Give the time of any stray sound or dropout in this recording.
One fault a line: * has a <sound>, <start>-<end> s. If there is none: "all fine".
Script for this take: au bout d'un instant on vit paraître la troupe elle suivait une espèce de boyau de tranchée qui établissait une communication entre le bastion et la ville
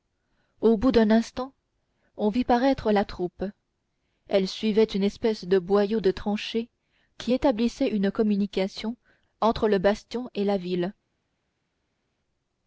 all fine